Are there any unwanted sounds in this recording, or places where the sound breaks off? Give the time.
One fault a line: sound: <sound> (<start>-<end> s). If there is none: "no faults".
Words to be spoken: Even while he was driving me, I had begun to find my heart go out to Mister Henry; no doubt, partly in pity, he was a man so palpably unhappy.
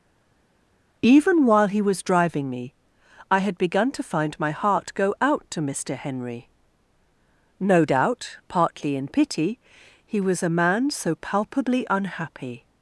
no faults